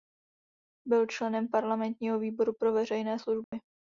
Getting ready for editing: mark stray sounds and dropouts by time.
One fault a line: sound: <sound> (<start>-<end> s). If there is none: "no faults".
sound: dropout (3.4-3.5 s)